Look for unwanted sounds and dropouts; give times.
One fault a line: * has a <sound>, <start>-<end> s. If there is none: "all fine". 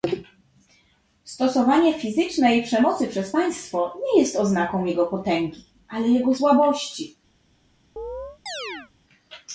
* has a chirp, 8.0-8.9 s